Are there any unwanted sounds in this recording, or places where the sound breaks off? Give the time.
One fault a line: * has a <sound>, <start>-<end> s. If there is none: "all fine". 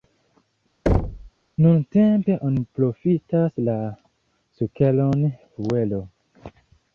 * has a thud, 0.9-1.3 s